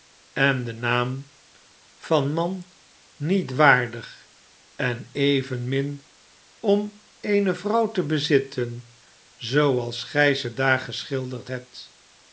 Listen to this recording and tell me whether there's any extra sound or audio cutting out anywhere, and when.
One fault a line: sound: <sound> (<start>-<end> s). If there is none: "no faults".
no faults